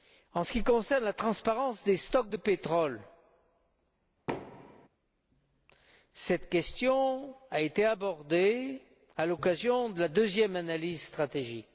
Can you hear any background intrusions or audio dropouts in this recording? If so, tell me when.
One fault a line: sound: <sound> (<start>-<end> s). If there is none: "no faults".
sound: thud (4.3-4.9 s)